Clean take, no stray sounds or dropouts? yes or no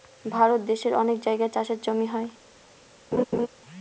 no